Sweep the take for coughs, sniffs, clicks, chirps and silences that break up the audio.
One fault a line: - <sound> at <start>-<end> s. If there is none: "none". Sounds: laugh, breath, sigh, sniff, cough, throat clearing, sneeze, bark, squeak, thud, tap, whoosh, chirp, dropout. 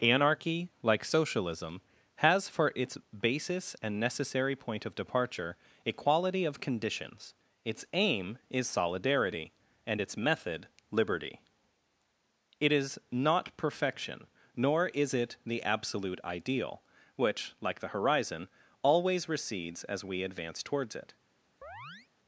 - chirp at 21.6-22.1 s